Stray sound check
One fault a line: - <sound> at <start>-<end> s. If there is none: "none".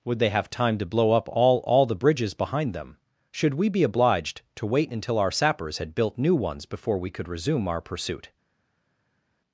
none